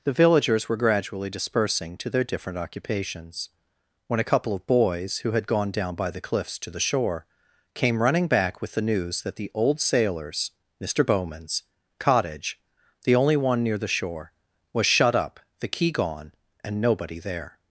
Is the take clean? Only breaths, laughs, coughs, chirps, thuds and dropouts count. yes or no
yes